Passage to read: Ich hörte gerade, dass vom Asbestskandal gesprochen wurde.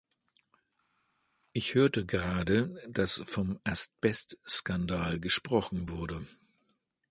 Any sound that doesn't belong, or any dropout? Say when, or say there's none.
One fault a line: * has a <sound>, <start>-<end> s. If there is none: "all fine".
all fine